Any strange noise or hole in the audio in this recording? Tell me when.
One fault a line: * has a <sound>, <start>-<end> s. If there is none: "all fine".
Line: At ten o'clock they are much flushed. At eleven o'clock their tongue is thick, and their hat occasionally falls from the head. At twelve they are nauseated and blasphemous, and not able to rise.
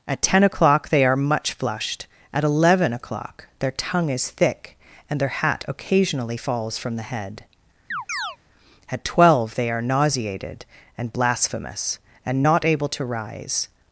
* has a chirp, 7.9-8.4 s